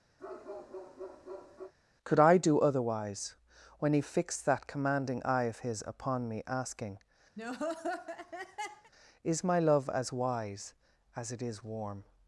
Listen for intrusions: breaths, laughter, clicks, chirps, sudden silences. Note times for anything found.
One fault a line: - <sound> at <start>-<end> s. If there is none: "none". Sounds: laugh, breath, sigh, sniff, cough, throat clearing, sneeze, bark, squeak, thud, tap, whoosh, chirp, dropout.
- bark at 0.2-1.7 s
- laugh at 7.4-8.9 s